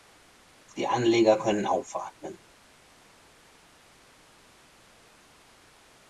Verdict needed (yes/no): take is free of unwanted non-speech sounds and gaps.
yes